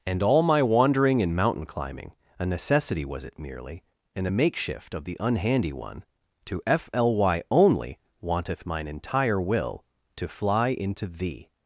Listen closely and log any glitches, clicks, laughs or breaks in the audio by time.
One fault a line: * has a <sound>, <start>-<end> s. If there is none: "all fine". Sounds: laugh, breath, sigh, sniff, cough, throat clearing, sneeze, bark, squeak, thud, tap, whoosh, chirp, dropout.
all fine